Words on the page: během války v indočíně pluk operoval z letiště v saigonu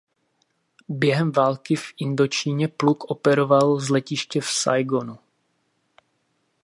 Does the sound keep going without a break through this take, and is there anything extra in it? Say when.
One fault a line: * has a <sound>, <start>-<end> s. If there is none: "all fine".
all fine